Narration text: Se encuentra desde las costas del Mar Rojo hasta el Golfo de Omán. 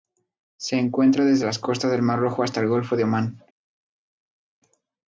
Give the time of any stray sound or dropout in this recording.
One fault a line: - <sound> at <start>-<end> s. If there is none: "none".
none